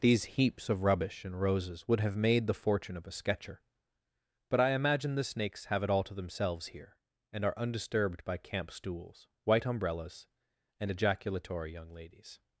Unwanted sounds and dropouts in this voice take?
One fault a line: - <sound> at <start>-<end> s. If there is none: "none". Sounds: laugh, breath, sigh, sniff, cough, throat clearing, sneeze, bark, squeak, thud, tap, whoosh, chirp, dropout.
none